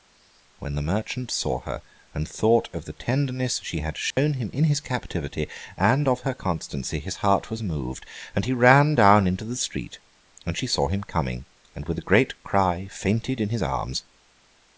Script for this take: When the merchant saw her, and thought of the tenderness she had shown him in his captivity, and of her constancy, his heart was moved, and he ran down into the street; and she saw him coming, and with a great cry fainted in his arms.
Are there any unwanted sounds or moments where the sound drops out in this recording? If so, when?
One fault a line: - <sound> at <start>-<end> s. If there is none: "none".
- dropout at 4.1-4.2 s